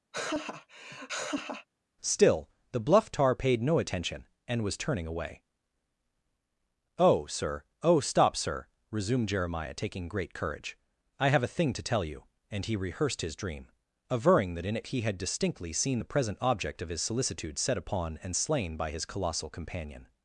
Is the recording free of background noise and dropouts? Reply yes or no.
no